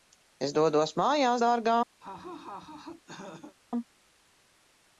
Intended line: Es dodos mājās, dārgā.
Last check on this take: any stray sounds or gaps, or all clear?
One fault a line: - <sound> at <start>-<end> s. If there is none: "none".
- laugh at 2.0-3.6 s